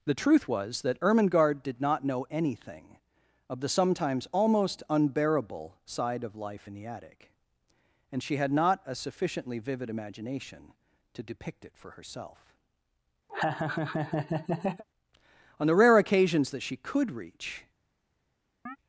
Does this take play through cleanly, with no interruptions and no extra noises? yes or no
no